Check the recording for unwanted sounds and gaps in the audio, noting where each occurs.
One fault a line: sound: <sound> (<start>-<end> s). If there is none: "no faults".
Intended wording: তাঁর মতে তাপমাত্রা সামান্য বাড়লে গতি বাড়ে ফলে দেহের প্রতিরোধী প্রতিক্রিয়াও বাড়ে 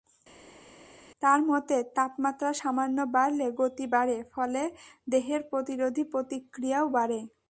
no faults